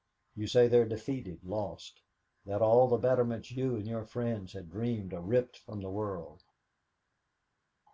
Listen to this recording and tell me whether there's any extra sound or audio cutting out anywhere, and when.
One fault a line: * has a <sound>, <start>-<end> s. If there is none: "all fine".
all fine